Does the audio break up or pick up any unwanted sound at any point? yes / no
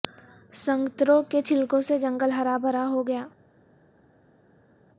no